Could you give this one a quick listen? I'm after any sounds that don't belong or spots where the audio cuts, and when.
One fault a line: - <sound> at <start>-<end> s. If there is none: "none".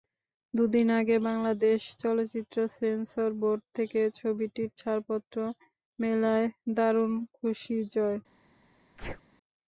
- sneeze at 9.0-9.2 s